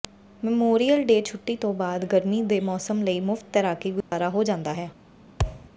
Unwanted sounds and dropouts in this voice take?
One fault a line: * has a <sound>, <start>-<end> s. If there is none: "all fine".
* has a dropout, 4.0-4.1 s
* has a thud, 5.4-5.7 s